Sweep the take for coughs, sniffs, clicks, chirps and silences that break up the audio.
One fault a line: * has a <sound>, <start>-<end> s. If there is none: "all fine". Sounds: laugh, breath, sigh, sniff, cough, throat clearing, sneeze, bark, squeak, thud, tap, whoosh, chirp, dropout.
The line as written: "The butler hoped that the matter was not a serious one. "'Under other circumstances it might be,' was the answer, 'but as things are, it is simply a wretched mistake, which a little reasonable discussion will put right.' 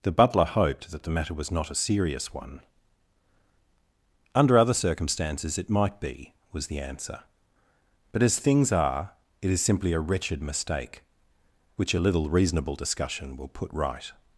all fine